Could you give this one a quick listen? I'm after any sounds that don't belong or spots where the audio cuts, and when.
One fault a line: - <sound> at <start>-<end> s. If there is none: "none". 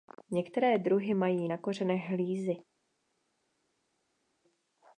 none